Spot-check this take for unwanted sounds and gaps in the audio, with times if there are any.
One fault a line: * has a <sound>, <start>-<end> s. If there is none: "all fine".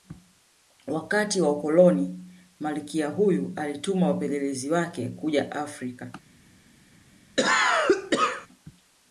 * has a cough, 7.4-8.5 s